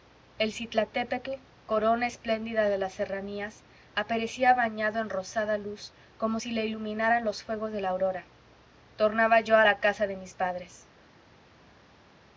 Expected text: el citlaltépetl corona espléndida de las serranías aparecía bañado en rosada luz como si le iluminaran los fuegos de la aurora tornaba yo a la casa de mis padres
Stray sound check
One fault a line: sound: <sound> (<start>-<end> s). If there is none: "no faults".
no faults